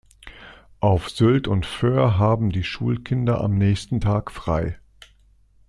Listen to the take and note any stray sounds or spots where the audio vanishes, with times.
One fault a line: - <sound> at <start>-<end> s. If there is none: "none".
none